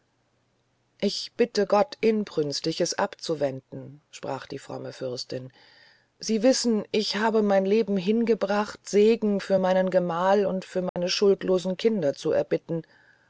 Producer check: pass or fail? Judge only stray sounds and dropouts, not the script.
fail